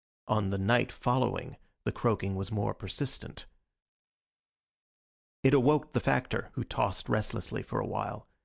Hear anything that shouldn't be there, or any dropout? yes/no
no